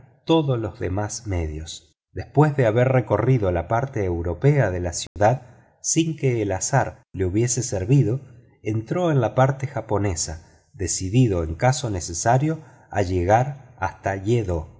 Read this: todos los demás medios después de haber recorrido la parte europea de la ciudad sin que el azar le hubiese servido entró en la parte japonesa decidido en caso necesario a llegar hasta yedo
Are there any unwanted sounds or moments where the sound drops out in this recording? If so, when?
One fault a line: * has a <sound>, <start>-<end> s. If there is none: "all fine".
* has a dropout, 5.1-5.2 s